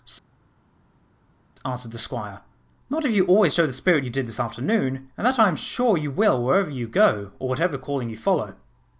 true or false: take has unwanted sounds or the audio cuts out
false